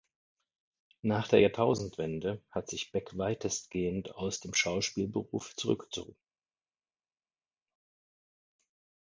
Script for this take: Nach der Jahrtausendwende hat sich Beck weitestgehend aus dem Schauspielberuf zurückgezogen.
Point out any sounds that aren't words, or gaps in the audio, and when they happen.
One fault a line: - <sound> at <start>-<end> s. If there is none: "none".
none